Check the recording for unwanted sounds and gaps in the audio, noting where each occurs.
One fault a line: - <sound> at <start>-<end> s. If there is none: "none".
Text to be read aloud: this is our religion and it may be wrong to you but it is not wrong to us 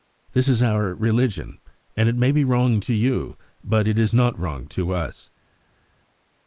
none